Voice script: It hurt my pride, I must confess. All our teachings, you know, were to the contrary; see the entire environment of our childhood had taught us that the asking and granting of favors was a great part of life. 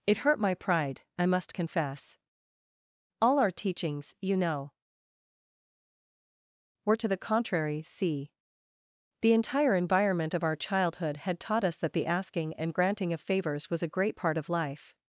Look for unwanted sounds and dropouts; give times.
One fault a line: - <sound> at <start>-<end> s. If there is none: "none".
none